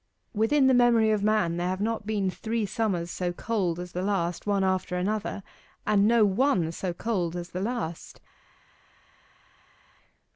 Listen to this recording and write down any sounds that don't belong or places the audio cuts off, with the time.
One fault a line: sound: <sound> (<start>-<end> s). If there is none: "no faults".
no faults